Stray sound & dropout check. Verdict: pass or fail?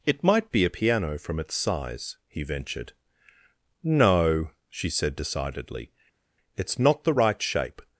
pass